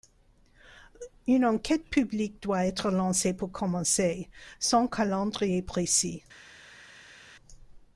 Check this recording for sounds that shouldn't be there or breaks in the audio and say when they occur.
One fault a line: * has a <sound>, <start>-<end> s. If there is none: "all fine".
all fine